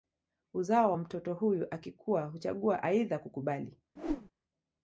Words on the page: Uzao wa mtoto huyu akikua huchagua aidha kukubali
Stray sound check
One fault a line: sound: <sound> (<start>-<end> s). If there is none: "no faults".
sound: whoosh (4.0-4.3 s)